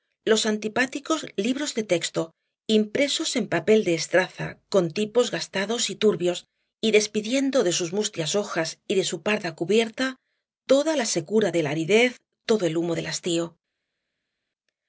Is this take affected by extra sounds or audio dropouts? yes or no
no